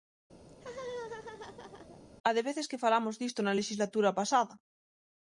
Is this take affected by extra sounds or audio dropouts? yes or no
yes